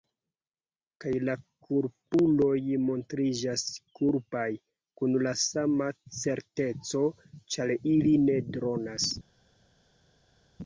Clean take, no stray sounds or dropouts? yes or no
yes